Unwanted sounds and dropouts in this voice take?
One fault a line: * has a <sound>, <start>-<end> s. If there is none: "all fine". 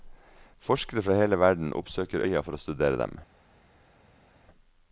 all fine